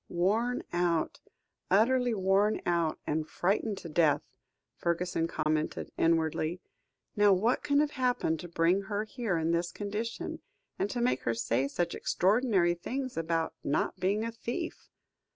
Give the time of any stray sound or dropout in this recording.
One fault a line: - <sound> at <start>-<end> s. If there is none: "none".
- dropout at 5.4-5.5 s